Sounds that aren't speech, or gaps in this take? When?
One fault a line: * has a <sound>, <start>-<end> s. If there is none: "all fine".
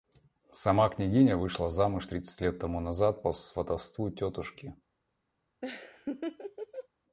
* has a laugh, 5.6-6.9 s